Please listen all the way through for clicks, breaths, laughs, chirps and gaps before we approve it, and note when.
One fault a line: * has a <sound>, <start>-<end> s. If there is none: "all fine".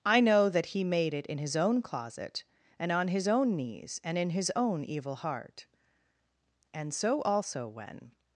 all fine